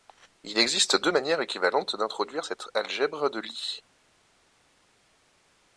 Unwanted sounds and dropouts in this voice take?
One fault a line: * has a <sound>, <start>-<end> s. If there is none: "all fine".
all fine